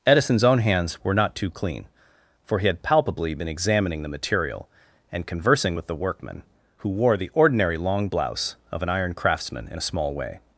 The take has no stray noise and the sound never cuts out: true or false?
true